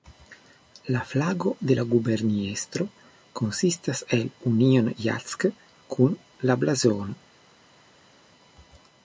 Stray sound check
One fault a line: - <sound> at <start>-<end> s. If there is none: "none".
none